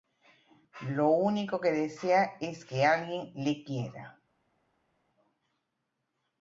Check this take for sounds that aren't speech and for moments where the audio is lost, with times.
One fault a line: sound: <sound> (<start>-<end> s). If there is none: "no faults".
no faults